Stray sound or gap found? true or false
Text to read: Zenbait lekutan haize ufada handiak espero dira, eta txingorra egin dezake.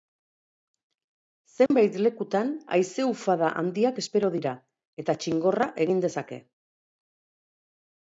true